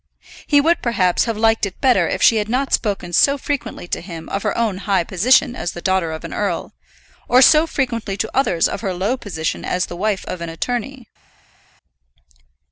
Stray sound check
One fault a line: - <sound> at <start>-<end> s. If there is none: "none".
none